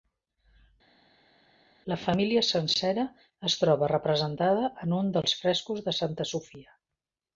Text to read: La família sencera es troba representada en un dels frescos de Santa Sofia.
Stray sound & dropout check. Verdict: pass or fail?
pass